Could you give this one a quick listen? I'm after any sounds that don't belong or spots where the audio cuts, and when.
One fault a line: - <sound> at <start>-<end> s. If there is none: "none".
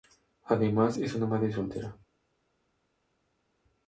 none